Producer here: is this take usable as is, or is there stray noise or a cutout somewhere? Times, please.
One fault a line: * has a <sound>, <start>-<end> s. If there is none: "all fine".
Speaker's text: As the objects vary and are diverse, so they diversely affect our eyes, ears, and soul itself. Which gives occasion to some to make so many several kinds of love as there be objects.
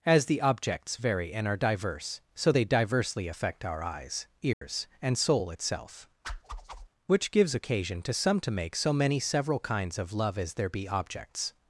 * has a dropout, 4.5-4.6 s
* has a whoosh, 6.2-6.9 s